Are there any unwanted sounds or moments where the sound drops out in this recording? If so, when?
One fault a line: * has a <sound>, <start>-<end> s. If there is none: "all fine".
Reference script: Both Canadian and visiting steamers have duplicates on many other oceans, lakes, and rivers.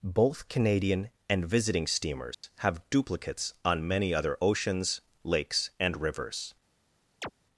* has a dropout, 2.3-2.4 s
* has a chirp, 7.2-7.3 s